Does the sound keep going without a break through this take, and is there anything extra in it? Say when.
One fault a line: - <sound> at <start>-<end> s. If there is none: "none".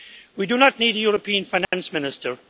- dropout at 1.6-1.7 s